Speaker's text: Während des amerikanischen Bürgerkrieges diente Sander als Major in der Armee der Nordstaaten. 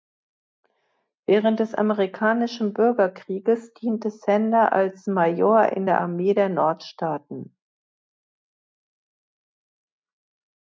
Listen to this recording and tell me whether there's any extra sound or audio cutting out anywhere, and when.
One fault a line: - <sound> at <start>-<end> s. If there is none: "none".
none